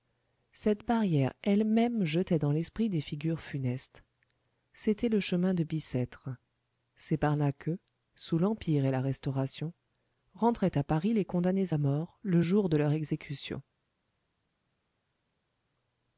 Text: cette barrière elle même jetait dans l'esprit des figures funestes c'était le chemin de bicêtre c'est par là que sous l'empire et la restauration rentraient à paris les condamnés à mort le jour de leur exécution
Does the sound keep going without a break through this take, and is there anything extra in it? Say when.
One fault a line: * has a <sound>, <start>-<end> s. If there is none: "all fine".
all fine